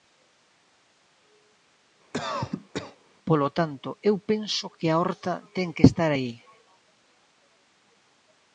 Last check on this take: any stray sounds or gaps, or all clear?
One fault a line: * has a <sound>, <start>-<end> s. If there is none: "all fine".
* has a cough, 2.1-3.0 s